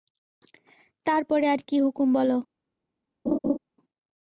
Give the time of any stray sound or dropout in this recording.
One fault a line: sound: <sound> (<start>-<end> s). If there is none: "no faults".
sound: laugh (3.3-3.6 s)